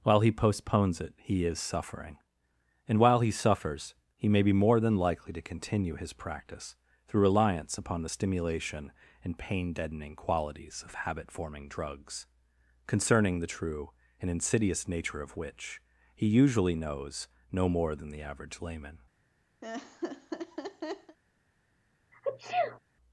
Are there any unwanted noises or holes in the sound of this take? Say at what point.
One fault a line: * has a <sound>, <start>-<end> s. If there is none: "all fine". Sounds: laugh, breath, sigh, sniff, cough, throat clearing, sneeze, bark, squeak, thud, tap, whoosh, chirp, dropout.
* has a laugh, 19.6-21.2 s
* has a sneeze, 22.1-22.8 s